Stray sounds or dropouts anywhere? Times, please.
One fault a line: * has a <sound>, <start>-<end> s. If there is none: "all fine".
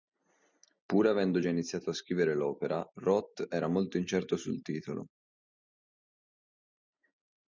all fine